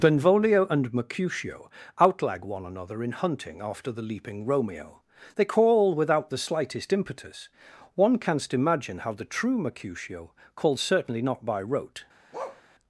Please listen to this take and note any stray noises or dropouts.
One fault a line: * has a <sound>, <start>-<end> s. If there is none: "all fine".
* has a bark, 12.3-12.6 s